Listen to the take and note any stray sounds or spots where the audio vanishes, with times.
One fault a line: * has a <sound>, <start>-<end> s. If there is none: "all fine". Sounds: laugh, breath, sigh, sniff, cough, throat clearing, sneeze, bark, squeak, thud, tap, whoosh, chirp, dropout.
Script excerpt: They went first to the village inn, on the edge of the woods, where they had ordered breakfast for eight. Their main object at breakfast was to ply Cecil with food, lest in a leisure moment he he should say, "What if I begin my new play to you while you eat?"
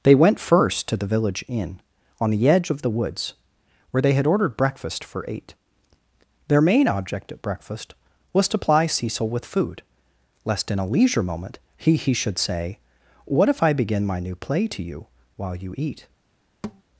* has a thud, 16.6-16.8 s